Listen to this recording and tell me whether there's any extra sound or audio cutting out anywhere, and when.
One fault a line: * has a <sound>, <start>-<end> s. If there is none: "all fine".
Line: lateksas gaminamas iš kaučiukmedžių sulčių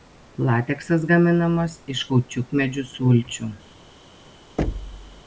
* has a thud, 4.6-5.2 s